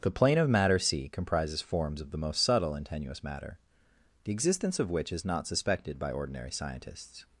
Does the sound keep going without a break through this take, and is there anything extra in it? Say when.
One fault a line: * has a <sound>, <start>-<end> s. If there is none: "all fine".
all fine